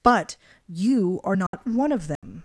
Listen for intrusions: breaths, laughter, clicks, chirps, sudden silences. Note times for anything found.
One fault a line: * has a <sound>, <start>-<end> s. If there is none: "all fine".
* has a dropout, 1.5-1.5 s
* has a dropout, 2.2-2.2 s